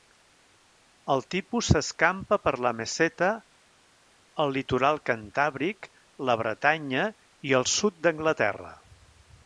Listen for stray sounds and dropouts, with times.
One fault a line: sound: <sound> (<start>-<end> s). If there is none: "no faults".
no faults